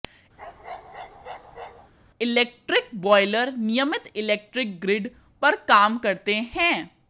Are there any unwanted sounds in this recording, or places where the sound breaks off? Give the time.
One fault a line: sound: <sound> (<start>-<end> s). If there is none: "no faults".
sound: bark (0.4-1.9 s)